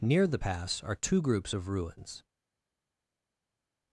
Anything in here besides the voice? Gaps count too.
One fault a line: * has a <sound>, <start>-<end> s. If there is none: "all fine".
all fine